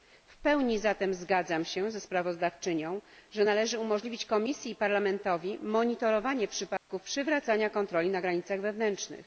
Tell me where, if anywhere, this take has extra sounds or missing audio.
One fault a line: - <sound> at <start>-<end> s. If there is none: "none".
- dropout at 6.8-6.9 s